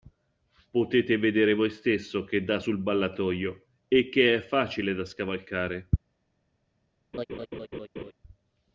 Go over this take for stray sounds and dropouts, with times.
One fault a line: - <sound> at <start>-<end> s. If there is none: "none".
- laugh at 7.1-8.1 s